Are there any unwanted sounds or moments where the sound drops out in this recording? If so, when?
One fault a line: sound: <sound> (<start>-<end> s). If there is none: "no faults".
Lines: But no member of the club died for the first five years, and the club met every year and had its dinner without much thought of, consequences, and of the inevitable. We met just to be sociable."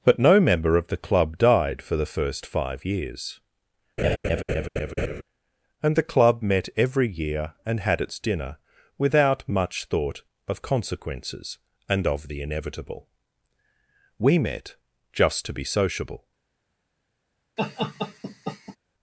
sound: laugh (4.0-5.2 s)
sound: laugh (17.6-18.8 s)